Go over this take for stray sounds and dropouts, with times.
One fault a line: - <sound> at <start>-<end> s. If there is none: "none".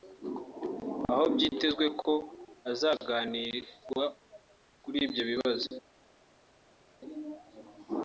none